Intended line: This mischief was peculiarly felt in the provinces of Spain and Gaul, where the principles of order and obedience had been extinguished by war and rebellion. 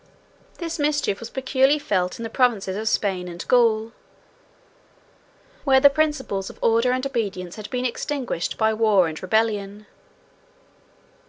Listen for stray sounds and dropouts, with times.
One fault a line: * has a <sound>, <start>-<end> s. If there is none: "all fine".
all fine